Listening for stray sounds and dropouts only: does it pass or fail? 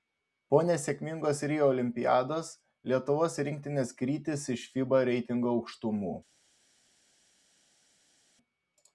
pass